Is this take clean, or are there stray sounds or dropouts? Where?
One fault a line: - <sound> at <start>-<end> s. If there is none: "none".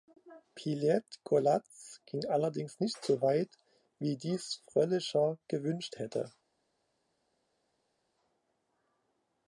none